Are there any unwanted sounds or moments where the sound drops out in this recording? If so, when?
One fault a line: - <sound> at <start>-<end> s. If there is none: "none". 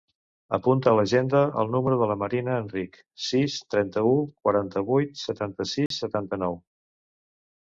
- dropout at 5.9-5.9 s